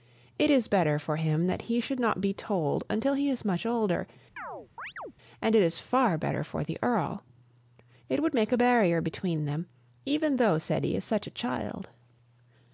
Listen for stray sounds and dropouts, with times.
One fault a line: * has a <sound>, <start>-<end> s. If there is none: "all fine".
* has a chirp, 4.4-5.1 s